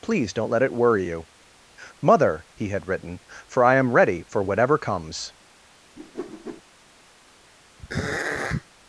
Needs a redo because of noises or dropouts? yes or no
yes